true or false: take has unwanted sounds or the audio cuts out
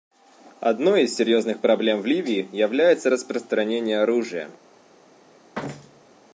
true